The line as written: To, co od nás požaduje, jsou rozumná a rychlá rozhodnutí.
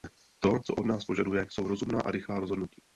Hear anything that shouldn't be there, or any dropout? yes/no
no